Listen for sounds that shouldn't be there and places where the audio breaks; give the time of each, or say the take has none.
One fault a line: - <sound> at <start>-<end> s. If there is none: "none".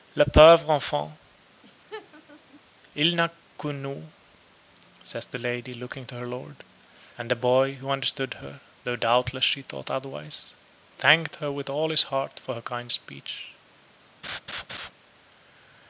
- laugh at 1.6-2.6 s
- laugh at 14.2-14.9 s